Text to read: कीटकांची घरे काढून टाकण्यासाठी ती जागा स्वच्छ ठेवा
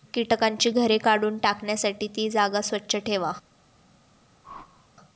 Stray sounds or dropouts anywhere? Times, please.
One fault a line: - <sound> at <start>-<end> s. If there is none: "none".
- whoosh at 4.4-4.9 s